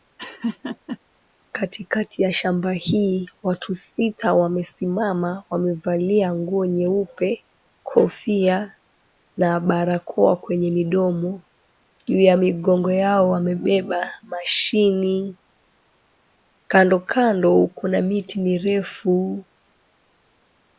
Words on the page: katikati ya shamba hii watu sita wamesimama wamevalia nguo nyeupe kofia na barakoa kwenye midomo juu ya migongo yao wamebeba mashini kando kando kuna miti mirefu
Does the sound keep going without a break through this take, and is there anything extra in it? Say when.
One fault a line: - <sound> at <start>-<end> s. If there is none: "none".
- laugh at 0.2-1.0 s